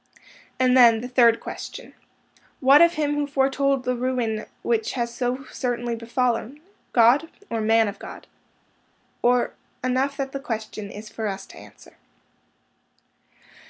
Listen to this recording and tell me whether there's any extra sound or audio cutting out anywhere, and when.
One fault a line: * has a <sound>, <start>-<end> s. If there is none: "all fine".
all fine